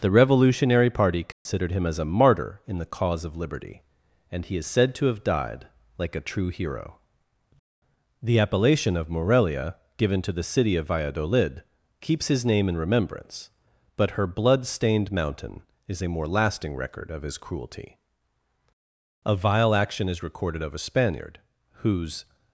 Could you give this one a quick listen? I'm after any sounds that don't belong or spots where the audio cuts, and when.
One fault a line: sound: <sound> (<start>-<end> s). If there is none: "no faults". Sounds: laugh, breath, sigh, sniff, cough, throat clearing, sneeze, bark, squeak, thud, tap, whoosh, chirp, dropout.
sound: dropout (1.3-1.5 s)